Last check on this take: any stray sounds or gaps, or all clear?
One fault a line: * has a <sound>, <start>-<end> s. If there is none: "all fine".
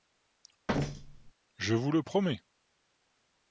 * has a thud, 0.7-1.3 s